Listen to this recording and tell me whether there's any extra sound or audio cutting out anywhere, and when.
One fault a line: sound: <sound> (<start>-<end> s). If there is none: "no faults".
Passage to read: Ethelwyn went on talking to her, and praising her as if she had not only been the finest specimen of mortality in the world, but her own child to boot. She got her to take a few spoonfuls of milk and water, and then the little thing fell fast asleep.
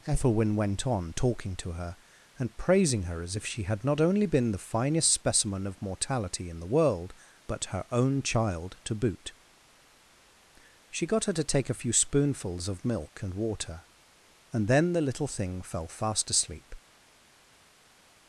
no faults